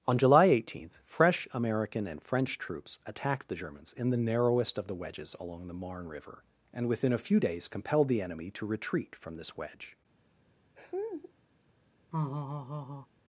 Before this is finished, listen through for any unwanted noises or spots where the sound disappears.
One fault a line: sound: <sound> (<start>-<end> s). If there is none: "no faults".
sound: laugh (10.8-11.3 s)
sound: laugh (12.1-13.1 s)